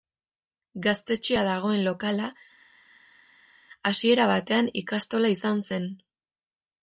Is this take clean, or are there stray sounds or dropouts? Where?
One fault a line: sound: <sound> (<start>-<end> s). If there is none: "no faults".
no faults